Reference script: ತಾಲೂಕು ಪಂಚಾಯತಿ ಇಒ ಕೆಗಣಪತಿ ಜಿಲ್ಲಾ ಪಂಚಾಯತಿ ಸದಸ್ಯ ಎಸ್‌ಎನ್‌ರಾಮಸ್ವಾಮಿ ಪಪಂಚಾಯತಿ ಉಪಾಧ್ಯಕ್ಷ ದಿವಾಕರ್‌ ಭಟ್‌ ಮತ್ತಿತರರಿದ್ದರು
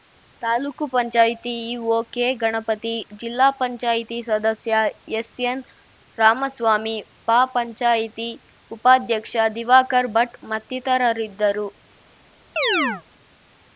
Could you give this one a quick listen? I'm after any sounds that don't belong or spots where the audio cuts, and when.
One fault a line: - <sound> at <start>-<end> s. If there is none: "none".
- chirp at 12.6-13.0 s